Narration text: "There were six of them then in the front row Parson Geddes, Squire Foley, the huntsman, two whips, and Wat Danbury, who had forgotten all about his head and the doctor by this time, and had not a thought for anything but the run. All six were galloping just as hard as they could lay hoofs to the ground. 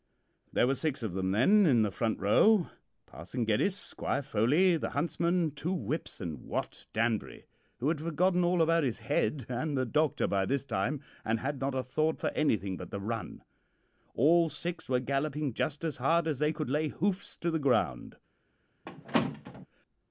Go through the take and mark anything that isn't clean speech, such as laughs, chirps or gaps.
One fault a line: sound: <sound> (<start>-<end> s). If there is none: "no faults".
sound: squeak (18.9-19.7 s)